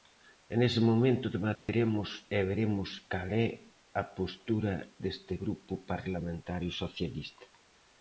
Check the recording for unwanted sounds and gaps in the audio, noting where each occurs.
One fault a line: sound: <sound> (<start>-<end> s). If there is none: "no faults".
sound: dropout (1.6-1.7 s)